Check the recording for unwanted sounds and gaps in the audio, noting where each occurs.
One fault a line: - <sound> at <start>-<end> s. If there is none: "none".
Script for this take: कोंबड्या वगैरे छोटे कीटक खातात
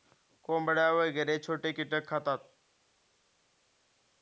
none